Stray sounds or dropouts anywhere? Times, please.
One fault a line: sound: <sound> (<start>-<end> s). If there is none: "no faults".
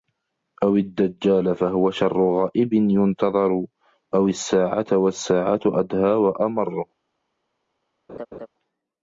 sound: laugh (8.1-8.5 s)